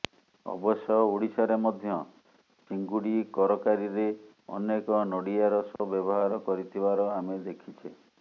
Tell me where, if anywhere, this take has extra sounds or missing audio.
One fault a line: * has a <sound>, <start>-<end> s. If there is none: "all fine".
* has a dropout, 5.8-5.8 s